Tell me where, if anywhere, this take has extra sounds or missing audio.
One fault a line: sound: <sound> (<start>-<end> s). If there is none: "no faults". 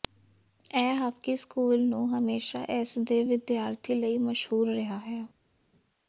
no faults